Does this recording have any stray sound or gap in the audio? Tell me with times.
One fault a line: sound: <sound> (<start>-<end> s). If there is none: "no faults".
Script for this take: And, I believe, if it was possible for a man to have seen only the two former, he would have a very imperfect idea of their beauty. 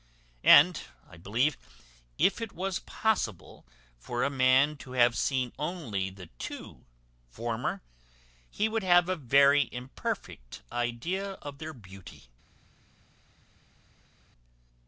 no faults